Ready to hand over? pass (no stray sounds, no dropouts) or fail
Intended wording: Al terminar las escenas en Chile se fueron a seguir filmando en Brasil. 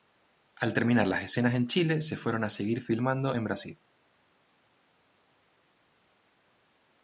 pass